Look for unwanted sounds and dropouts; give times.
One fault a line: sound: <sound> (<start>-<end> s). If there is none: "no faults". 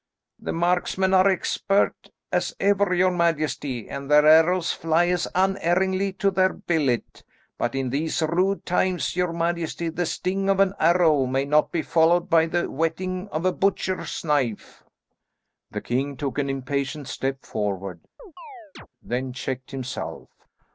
sound: chirp (18.2-18.9 s)